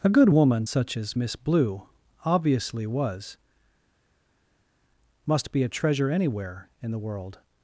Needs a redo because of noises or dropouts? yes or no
no